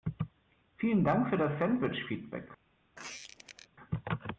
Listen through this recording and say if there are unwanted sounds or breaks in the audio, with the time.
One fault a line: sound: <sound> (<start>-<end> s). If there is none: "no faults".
sound: squeak (3.0-3.7 s)